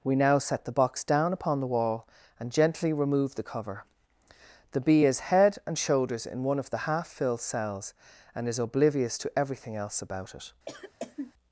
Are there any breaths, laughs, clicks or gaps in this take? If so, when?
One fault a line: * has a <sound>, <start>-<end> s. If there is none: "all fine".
* has a cough, 10.7-11.3 s